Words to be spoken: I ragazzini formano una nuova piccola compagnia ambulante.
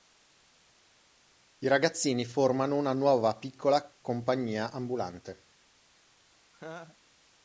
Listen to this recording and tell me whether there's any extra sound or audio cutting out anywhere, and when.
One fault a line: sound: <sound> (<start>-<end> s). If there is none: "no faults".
sound: laugh (6.5-7.0 s)